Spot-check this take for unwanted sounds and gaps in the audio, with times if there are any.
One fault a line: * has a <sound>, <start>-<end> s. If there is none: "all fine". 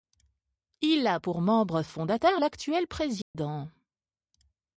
* has a dropout, 3.2-3.3 s